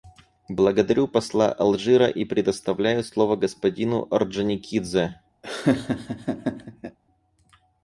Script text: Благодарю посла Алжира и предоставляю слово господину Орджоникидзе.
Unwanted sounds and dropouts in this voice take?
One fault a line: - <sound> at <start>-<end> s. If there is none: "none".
- laugh at 5.4-7.0 s